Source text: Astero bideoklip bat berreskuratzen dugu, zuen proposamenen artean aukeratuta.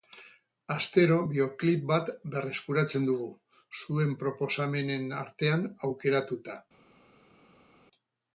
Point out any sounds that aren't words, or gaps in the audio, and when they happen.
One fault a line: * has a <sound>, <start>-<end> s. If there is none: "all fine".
all fine